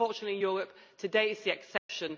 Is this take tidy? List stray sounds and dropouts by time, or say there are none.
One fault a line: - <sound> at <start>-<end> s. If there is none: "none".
- dropout at 1.8-1.9 s